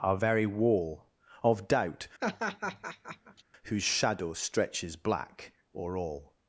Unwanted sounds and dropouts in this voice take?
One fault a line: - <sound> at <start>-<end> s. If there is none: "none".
- laugh at 2.2-3.4 s